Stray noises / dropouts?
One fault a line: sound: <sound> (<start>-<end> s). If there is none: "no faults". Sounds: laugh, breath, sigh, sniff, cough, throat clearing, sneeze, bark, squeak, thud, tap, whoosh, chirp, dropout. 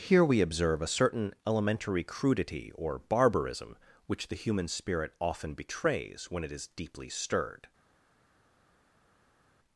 no faults